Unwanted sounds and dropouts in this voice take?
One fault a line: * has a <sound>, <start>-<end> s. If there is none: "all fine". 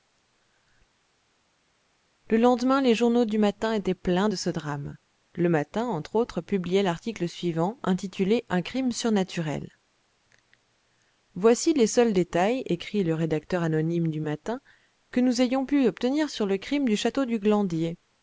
all fine